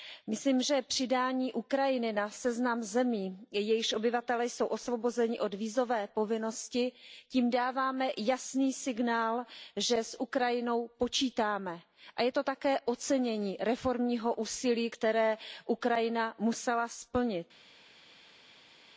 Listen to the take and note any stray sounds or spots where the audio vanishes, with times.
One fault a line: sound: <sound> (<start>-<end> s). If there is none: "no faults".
no faults